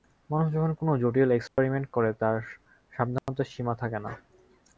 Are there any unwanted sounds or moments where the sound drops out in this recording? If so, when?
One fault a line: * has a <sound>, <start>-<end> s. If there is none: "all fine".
* has a dropout, 1.5-1.6 s
* has a dropout, 3.2-3.3 s